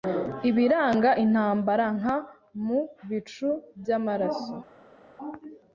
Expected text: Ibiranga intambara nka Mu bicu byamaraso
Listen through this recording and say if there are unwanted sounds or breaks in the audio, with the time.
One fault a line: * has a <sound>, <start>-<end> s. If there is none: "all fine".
all fine